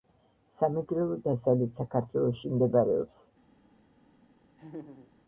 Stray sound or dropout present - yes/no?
yes